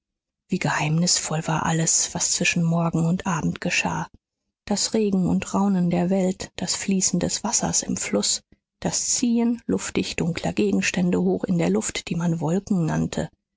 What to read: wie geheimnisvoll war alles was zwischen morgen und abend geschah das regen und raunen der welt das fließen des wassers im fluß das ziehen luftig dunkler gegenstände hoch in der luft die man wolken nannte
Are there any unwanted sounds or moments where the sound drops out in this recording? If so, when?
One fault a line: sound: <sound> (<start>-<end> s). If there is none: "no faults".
no faults